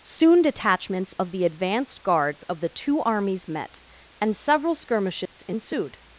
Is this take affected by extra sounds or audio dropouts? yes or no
yes